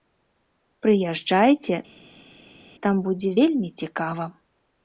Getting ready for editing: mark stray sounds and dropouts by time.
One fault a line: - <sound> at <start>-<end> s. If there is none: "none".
none